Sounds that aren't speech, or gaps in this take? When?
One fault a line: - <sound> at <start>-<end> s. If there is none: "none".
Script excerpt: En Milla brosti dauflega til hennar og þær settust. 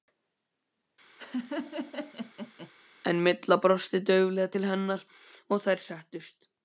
- laugh at 1.2-2.7 s